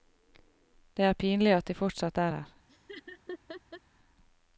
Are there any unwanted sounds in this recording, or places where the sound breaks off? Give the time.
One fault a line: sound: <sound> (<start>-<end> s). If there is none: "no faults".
sound: laugh (2.7-3.8 s)